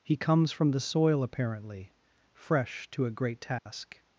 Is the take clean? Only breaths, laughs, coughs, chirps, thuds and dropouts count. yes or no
no